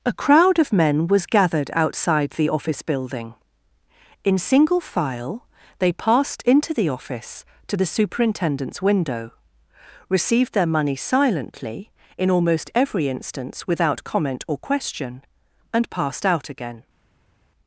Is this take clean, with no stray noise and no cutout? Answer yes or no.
yes